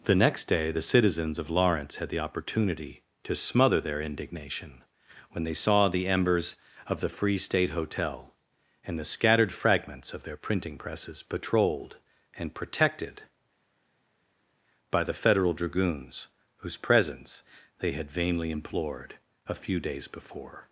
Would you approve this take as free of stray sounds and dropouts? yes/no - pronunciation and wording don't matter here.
yes